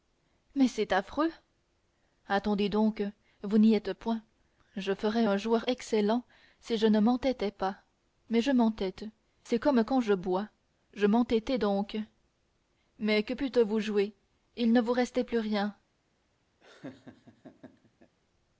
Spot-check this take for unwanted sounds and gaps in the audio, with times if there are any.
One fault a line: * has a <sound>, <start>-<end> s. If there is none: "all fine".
* has a laugh, 16.6-18.2 s